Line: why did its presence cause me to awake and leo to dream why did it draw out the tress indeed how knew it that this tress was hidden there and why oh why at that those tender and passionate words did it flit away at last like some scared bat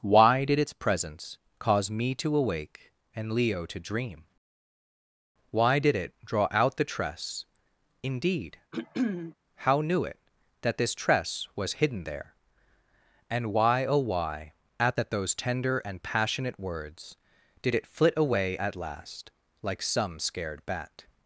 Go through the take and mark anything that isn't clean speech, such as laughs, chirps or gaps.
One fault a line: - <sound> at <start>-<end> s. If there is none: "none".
- throat clearing at 8.7-9.3 s